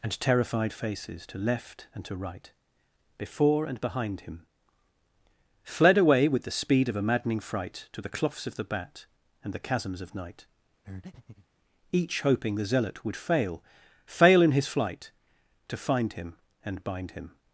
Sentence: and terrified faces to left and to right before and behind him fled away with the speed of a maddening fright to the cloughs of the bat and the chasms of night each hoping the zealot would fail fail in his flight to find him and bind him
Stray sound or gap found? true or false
true